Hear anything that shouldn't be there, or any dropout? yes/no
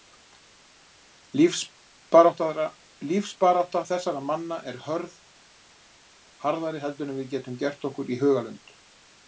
no